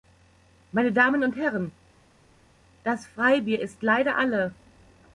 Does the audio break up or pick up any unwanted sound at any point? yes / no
no